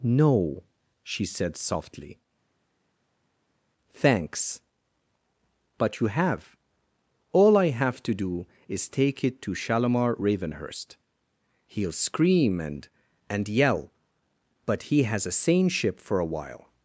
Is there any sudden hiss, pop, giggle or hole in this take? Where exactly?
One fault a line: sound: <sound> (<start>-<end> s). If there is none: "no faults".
no faults